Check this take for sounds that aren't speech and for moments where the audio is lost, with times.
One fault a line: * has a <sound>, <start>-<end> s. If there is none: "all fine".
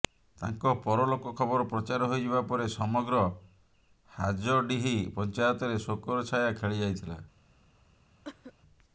* has a cough, 8.2-8.5 s